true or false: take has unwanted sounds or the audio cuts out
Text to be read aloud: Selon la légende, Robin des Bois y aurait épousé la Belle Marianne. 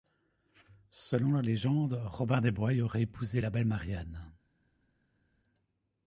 false